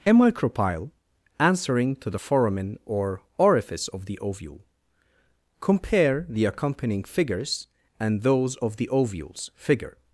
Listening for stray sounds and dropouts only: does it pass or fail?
pass